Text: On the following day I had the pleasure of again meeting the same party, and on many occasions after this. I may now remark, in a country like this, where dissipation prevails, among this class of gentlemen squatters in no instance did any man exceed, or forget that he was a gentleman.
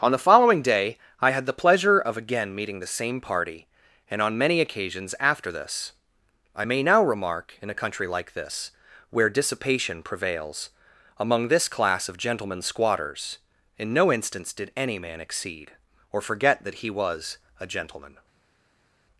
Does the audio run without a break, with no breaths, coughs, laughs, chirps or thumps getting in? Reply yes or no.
yes